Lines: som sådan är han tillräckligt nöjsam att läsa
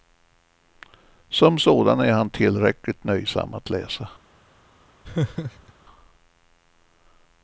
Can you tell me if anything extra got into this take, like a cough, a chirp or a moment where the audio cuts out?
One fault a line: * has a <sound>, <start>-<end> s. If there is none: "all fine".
* has a laugh, 5.0-5.7 s